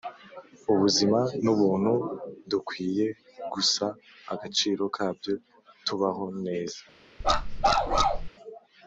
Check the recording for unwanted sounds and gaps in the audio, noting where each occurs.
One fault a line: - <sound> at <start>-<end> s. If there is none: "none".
- bark at 7.2-8.3 s